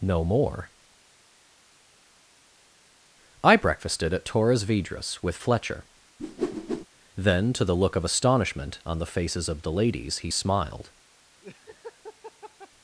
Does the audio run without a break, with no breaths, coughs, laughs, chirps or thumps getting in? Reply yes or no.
no